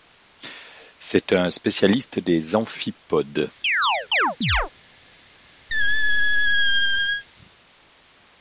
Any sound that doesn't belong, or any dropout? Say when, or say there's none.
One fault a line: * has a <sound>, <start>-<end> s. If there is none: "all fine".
* has a chirp, 3.6-4.7 s
* has a squeak, 5.7-7.2 s